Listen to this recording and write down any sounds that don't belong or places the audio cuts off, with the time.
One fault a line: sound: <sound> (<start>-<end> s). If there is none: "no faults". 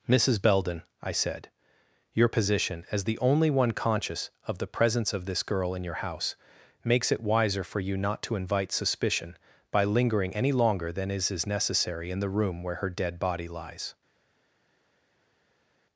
no faults